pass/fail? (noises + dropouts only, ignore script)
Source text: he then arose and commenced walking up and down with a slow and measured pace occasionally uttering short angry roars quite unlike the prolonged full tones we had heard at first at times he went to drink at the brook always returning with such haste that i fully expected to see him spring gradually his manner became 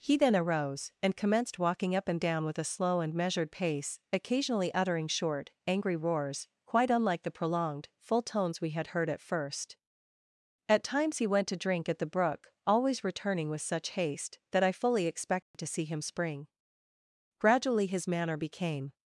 fail